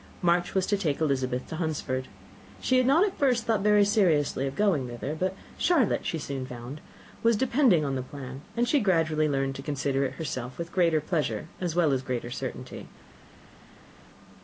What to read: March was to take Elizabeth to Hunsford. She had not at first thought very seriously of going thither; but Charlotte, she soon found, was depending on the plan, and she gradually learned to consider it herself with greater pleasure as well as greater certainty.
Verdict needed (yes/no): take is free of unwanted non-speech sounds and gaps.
yes